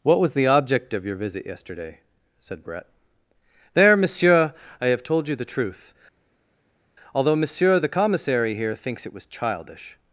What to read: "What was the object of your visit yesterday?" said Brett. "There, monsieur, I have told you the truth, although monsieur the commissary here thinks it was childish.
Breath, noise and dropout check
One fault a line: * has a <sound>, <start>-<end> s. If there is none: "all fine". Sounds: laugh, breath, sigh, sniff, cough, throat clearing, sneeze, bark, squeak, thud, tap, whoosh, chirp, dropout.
all fine